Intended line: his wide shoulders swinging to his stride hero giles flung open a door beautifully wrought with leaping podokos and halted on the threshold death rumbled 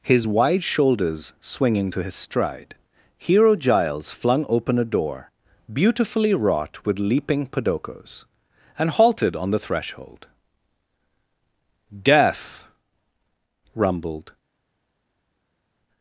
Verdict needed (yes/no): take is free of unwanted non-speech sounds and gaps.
yes